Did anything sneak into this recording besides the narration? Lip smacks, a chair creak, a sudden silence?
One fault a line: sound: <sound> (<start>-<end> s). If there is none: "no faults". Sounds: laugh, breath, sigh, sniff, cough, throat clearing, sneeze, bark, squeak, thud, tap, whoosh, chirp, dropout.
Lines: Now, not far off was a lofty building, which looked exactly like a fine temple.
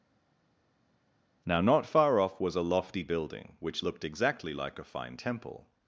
no faults